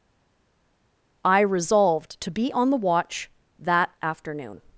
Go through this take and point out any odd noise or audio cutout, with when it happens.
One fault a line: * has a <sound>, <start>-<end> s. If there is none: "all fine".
all fine